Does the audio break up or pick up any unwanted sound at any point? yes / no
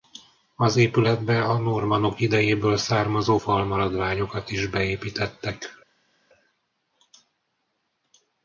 no